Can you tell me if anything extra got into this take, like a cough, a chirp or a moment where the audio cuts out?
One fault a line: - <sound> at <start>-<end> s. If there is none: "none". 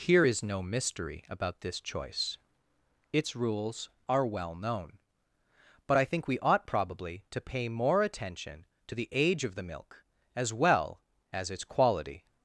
none